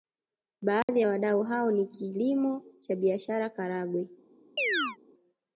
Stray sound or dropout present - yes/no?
yes